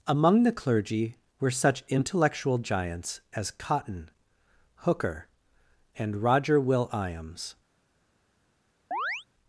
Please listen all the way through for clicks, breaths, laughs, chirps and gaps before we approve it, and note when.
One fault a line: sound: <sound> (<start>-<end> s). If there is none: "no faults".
sound: chirp (8.9-9.2 s)